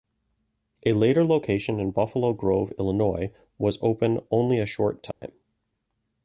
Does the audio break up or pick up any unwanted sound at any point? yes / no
yes